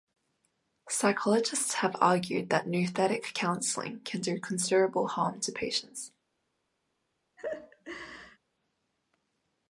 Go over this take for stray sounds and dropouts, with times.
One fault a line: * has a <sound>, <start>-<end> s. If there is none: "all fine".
* has a laugh, 7.4-8.4 s